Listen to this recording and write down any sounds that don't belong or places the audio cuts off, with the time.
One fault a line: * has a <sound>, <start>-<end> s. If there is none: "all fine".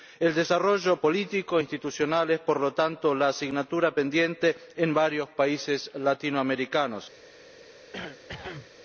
* has a cough, 7.9-8.7 s